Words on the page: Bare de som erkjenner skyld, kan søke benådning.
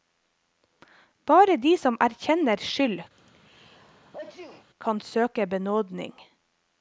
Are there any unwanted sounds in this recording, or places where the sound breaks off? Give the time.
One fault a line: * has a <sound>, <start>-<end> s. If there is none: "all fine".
* has a sneeze, 3.2-4.7 s